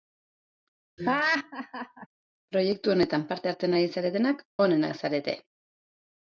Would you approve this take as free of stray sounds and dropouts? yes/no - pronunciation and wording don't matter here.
no